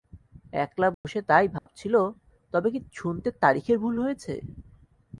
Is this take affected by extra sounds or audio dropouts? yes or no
yes